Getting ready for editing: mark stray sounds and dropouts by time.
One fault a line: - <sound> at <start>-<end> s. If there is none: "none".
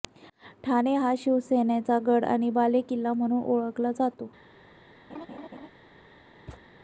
- laugh at 5.1-5.7 s
- thud at 6.5-6.7 s